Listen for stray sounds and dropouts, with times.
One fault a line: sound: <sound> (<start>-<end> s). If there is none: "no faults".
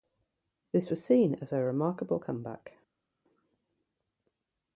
no faults